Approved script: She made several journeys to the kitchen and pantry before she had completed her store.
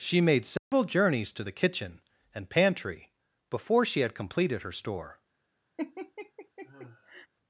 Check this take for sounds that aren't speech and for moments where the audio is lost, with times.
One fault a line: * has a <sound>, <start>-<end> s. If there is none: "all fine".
* has a dropout, 0.6-0.7 s
* has a laugh, 5.8-7.3 s